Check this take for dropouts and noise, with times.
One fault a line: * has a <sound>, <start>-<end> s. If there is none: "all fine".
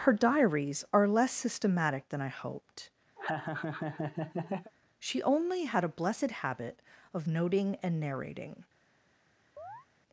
* has a laugh, 3.2-4.7 s
* has a chirp, 9.6-9.9 s